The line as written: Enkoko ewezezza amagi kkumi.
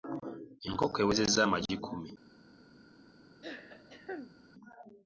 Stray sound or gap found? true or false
true